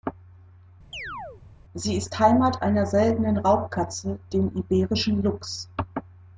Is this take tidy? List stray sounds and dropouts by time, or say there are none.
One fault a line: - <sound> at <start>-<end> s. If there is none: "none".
- chirp at 0.9-1.4 s